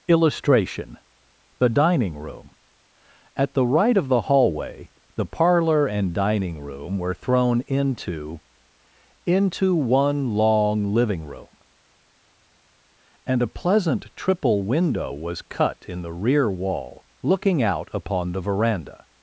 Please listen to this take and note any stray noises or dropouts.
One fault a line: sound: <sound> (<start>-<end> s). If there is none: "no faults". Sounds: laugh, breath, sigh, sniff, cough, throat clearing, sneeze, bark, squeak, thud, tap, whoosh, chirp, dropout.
no faults